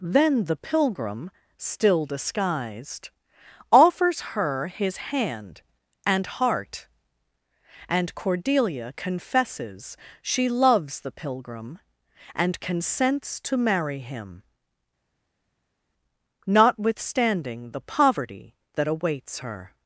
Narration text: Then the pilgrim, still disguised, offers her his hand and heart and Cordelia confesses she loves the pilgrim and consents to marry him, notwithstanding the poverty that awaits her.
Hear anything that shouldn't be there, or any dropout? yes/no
no